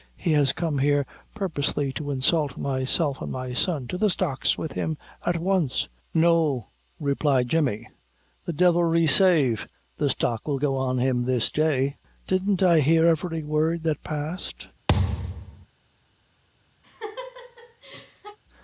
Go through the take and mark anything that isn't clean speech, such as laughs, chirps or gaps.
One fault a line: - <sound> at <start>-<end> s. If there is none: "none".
- thud at 14.9-15.7 s
- laugh at 16.8-18.4 s